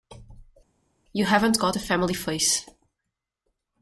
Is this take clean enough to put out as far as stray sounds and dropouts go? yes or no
yes